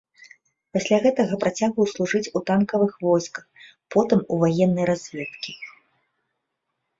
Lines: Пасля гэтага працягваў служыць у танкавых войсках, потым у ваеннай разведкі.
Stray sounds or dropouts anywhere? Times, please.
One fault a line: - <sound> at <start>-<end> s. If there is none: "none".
none